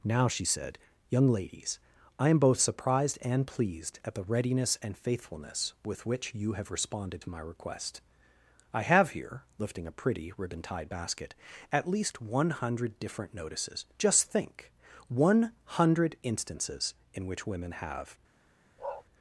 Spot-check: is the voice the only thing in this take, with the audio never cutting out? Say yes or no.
no